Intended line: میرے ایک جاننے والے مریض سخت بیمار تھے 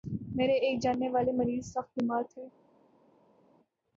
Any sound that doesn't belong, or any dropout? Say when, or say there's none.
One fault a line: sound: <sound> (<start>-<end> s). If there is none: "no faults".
no faults